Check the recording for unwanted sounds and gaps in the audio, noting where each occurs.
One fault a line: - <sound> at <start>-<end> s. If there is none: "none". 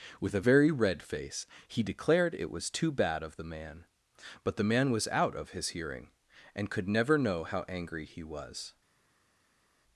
none